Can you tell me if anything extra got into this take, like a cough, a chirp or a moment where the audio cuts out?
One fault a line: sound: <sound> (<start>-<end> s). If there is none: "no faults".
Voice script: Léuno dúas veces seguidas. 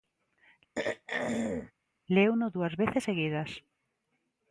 sound: throat clearing (0.8-1.7 s)